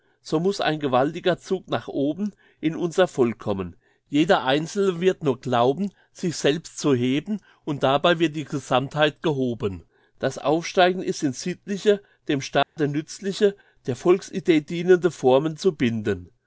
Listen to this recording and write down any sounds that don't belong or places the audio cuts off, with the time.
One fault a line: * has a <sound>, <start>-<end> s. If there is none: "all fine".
* has a dropout, 12.6-12.8 s